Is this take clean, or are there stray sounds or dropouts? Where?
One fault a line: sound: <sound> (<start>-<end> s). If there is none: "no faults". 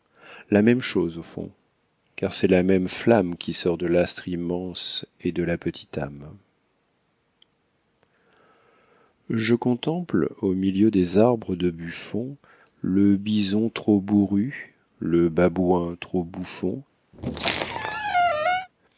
sound: squeak (17.1-18.7 s)